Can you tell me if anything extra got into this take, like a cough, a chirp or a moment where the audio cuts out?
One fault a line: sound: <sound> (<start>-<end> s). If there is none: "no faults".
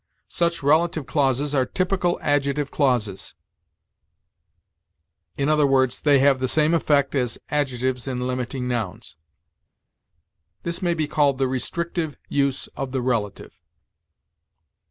no faults